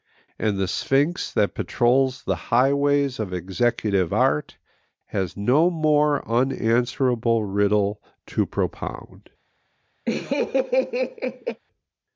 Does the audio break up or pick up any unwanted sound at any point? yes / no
yes